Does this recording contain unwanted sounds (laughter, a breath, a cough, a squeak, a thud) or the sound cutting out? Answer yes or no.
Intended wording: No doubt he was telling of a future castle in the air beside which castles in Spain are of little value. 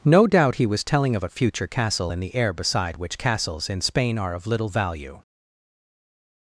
no